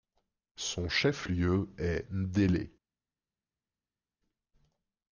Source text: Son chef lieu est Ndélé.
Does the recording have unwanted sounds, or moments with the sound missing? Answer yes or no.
no